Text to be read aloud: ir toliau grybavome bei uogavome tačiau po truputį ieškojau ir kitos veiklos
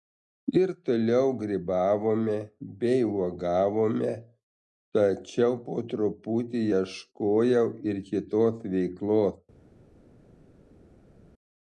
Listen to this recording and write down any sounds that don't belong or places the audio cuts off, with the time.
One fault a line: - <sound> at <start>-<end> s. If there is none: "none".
none